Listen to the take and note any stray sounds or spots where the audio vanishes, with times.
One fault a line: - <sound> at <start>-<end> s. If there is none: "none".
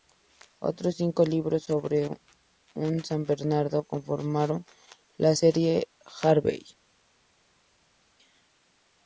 none